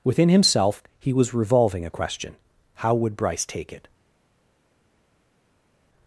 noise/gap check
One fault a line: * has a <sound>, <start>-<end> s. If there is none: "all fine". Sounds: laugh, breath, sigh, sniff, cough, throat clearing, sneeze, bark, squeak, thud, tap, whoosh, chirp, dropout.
all fine